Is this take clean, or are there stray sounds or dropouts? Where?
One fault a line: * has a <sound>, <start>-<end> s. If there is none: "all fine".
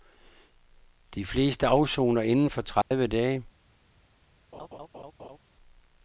* has a dropout, 2.8-2.9 s
* has a laugh, 4.5-5.4 s